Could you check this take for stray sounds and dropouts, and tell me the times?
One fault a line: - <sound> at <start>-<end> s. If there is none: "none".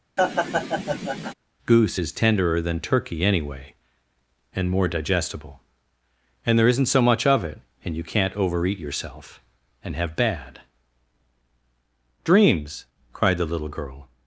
- laugh at 0.2-1.3 s